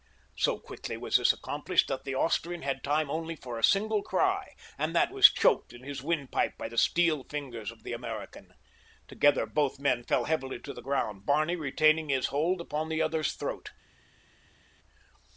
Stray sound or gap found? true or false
false